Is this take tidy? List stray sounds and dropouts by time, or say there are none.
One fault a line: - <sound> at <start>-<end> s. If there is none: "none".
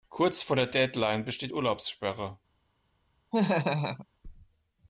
- laugh at 3.3-4.1 s